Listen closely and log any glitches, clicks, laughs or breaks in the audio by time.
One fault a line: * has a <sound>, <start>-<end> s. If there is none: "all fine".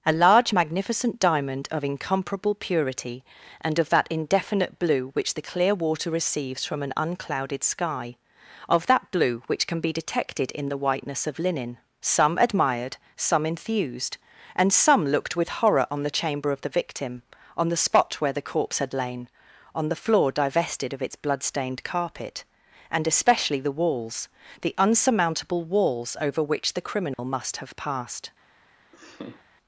* has a dropout, 27.1-27.2 s
* has a laugh, 28.9-29.4 s